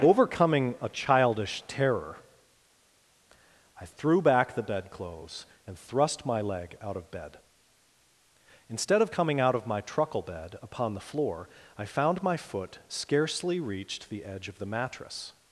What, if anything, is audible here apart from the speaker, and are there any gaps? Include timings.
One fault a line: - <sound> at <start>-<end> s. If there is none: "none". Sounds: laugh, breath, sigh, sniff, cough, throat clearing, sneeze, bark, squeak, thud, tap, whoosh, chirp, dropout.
none